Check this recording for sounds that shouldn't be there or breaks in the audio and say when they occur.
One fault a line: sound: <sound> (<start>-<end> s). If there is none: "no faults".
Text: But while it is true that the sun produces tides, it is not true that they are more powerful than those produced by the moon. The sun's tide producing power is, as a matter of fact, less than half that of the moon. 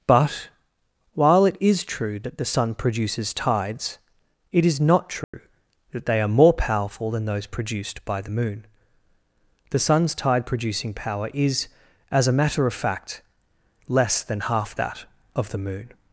sound: dropout (5.2-5.3 s)